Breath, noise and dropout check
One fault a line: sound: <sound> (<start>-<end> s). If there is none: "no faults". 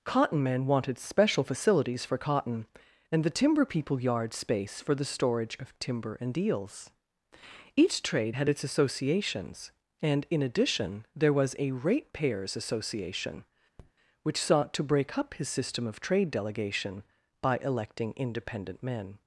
sound: tap (13.8-13.9 s)